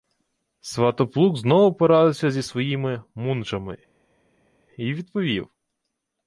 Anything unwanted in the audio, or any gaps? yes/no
no